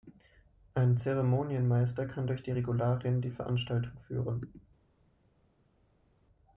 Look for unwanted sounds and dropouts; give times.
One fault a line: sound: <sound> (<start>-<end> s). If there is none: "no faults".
no faults